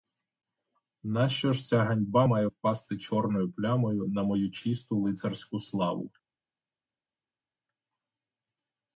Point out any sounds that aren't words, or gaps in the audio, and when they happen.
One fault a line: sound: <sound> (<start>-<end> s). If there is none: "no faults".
no faults